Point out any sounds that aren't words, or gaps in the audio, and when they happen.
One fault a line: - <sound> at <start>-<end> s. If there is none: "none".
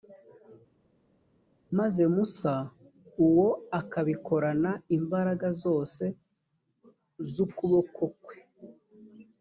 none